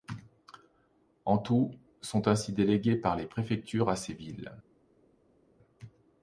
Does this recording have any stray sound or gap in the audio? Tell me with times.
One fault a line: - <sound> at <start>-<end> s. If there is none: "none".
none